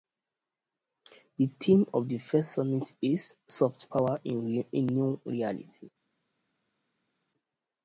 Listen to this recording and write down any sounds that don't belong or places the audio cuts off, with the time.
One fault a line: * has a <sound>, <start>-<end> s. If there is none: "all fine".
all fine